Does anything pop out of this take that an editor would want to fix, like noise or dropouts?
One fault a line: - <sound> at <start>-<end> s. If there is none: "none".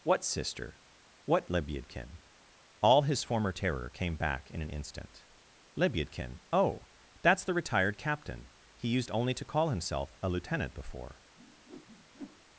- whoosh at 11.4-12.5 s